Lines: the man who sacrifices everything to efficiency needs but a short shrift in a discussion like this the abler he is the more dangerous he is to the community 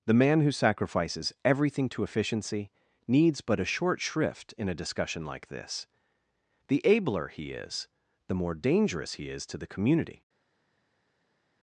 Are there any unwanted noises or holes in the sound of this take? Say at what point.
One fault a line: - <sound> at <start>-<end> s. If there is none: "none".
none